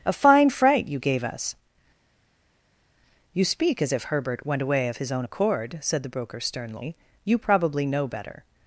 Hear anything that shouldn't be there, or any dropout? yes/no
no